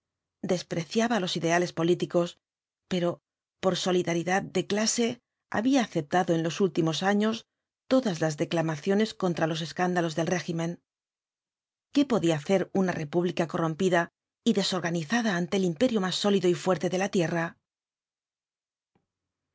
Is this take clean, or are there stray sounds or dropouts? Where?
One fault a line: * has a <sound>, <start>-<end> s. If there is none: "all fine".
all fine